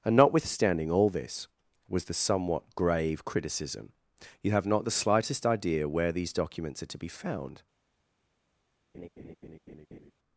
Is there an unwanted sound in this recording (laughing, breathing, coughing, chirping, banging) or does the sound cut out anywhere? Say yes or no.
yes